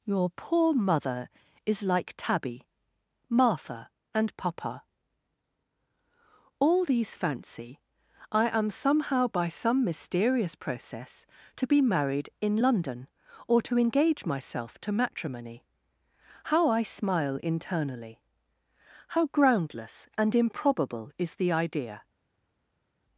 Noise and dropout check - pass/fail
pass